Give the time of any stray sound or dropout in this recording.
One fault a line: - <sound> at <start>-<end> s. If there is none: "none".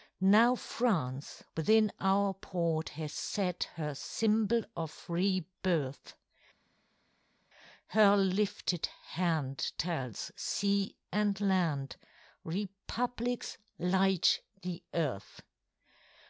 none